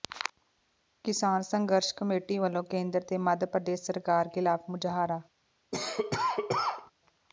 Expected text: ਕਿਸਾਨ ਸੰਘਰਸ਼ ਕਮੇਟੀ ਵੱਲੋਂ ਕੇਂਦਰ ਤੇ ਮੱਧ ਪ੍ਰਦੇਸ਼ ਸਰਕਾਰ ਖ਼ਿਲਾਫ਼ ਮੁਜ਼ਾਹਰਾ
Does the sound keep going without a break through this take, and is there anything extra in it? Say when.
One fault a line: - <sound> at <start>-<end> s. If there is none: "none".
- cough at 5.7-6.9 s